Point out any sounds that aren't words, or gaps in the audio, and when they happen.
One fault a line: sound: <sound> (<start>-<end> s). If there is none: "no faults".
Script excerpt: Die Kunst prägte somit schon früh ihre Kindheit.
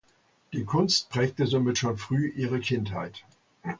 no faults